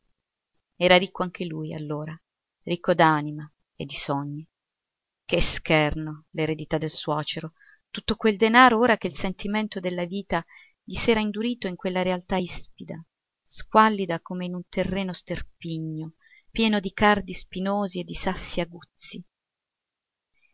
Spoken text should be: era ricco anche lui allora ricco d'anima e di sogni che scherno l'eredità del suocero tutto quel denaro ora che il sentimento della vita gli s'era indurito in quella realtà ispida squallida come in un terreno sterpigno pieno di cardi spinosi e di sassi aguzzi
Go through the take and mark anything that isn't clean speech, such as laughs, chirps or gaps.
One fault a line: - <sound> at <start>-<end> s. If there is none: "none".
none